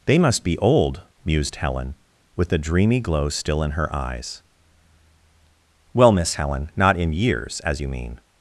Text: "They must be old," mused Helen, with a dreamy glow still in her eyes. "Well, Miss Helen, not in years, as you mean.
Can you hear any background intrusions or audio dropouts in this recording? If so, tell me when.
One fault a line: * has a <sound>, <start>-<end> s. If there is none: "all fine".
all fine